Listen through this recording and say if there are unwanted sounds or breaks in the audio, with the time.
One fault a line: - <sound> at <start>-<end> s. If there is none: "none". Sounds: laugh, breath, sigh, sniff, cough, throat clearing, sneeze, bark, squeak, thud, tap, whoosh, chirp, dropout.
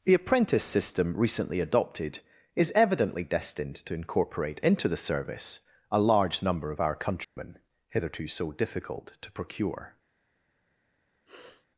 - dropout at 7.2-7.4 s
- sniff at 11.3-11.7 s